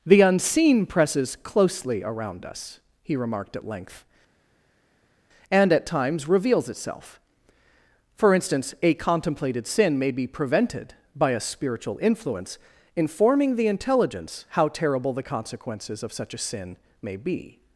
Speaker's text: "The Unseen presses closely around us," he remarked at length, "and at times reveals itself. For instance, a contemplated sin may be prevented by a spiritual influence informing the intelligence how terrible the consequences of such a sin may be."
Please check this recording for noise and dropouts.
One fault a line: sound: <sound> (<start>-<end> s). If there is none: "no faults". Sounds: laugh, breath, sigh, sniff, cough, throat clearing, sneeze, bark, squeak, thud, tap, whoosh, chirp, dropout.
no faults